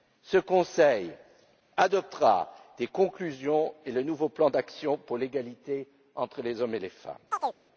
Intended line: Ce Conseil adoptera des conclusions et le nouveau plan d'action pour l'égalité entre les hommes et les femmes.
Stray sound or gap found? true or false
true